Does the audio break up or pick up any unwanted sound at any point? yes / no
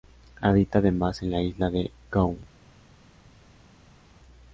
no